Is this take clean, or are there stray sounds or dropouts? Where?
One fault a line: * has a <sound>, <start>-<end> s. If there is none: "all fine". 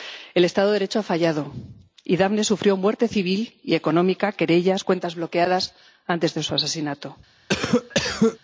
* has a cough, 7.5-8.4 s